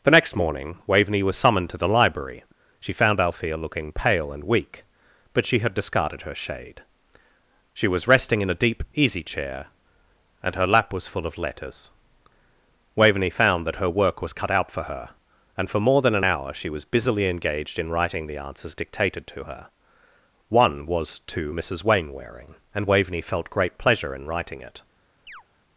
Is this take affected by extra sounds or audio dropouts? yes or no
yes